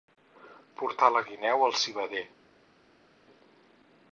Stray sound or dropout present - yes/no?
no